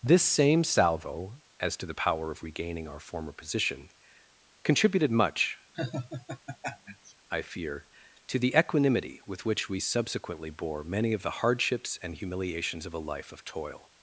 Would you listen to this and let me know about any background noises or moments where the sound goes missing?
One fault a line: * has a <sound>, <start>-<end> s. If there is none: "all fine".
* has a laugh, 5.7-7.1 s